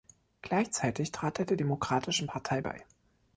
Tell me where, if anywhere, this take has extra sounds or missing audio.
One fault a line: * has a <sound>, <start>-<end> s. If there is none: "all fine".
all fine